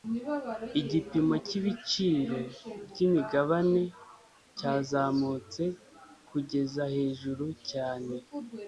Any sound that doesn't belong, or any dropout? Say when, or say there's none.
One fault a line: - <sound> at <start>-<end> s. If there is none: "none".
none